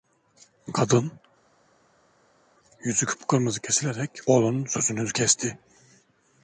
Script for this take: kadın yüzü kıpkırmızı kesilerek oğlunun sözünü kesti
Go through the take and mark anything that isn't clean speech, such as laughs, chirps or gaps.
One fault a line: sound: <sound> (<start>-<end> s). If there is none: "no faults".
no faults